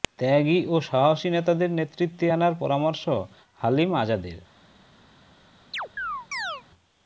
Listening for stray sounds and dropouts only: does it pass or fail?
fail